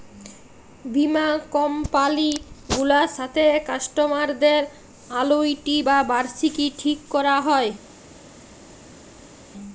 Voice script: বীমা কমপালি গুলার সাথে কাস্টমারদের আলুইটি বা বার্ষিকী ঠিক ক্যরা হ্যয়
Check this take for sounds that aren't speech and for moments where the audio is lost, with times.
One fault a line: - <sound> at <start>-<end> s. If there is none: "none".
none